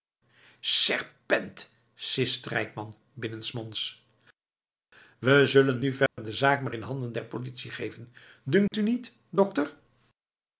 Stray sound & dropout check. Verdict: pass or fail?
fail